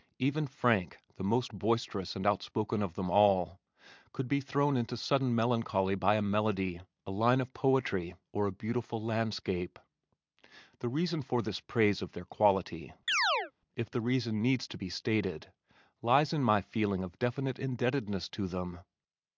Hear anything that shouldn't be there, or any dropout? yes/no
yes